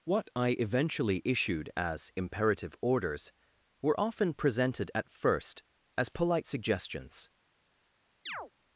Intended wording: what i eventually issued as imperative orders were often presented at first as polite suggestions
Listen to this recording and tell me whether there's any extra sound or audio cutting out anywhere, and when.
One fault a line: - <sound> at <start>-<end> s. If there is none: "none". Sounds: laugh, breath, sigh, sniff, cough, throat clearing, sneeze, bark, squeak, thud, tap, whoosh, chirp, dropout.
- chirp at 8.3-8.5 s